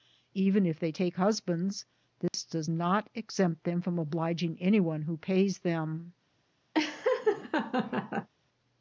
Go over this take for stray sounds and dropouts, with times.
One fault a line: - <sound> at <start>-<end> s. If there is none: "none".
- dropout at 2.3-2.3 s
- laugh at 6.7-8.3 s